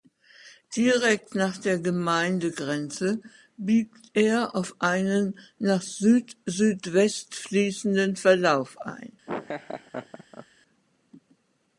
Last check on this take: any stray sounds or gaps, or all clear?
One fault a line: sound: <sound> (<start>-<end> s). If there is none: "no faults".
sound: laugh (9.3-10.5 s)